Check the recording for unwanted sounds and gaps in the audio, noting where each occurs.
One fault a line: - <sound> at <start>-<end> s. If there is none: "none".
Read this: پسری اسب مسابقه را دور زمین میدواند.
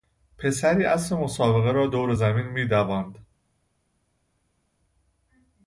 none